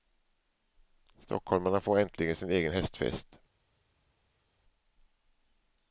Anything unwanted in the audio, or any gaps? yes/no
no